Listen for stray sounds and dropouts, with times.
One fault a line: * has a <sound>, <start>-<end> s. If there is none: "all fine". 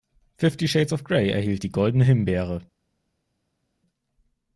all fine